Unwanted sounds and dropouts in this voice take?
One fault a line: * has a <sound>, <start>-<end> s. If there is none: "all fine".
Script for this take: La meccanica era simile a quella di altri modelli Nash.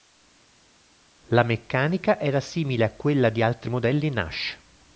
all fine